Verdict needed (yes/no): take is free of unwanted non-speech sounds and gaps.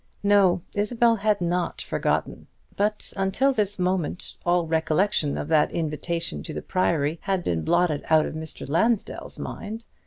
yes